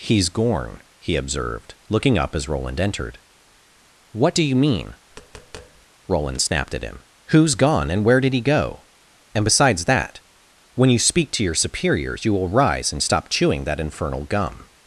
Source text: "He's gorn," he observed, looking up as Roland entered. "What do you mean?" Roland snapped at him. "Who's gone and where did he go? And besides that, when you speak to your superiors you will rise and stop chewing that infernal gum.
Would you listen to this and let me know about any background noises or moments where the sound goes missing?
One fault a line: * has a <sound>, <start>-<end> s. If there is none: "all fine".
* has a tap, 5.1-5.9 s